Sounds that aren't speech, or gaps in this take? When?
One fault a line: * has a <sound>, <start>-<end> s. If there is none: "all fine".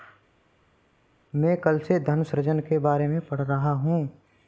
all fine